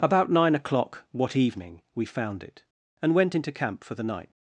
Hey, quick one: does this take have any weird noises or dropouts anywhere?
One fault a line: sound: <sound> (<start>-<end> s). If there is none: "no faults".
no faults